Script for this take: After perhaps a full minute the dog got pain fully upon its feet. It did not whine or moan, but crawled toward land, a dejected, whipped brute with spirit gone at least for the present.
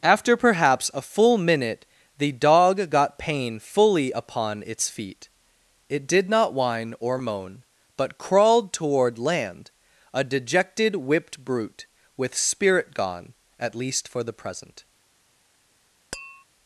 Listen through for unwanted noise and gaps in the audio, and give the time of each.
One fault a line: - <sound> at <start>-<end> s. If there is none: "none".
- tap at 16.1-16.4 s